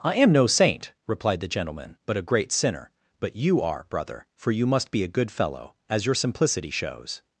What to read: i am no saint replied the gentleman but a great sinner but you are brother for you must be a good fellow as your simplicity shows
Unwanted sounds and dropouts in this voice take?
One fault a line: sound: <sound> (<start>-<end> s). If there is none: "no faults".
no faults